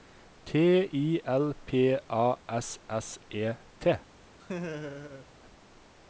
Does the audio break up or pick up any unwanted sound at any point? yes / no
yes